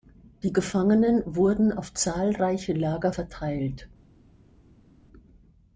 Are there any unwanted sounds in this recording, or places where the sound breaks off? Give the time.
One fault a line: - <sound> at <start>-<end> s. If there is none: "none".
none